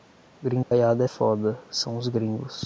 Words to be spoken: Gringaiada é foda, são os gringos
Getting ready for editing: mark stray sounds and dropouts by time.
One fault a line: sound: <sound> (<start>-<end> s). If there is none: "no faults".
sound: dropout (0.6-0.7 s)